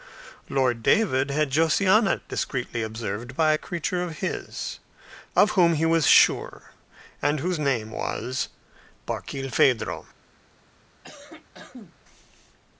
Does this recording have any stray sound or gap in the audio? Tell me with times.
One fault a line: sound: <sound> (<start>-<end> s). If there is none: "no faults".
sound: cough (11.0-12.0 s)